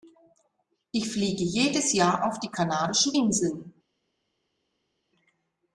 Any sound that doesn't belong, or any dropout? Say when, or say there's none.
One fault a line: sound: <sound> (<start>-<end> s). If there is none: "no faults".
no faults